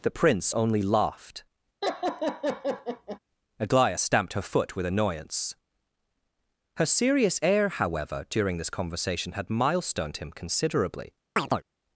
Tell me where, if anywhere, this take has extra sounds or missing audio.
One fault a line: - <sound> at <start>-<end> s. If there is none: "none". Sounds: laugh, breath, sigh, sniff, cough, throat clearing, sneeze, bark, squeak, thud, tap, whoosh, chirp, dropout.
- laugh at 1.8-3.2 s
- chirp at 11.4-11.6 s